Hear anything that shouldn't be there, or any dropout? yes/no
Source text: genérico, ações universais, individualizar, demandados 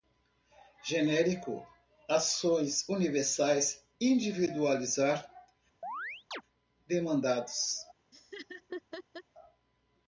yes